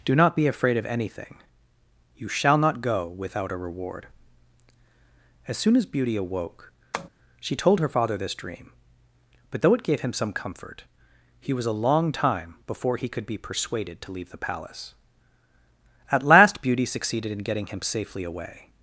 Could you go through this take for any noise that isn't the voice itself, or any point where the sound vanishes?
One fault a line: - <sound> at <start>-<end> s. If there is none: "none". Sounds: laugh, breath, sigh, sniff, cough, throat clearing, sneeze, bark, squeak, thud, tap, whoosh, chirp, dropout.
- tap at 6.9-7.1 s